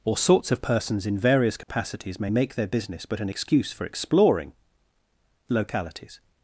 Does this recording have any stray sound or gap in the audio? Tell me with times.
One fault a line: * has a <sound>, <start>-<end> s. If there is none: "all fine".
* has a dropout, 1.6-1.7 s